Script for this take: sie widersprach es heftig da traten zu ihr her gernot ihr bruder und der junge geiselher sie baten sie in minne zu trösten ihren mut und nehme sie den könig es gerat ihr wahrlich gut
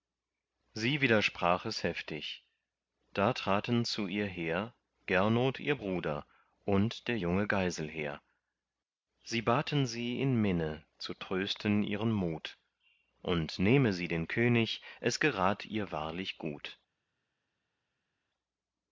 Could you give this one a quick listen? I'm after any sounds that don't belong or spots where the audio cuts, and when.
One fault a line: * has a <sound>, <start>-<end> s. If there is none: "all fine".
all fine